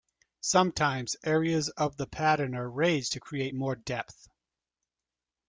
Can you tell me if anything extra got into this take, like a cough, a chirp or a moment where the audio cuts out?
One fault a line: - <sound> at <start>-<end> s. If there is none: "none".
none